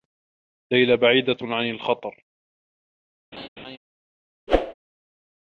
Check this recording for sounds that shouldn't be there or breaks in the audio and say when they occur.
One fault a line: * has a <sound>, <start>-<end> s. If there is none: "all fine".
* has a laugh, 3.3-3.8 s
* has a whoosh, 4.5-4.7 s